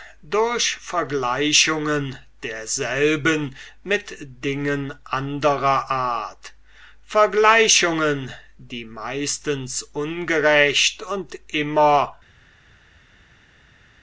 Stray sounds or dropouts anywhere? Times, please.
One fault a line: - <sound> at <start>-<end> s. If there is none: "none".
none